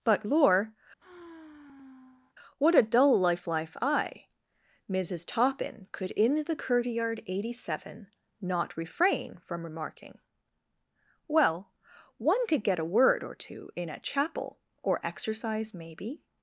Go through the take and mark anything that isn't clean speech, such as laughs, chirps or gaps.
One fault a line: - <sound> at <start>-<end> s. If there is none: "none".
- sigh at 1.0-2.4 s